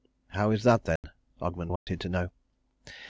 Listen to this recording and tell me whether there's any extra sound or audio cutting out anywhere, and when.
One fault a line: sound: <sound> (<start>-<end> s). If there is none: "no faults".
sound: dropout (1.0-1.0 s)
sound: dropout (1.8-1.9 s)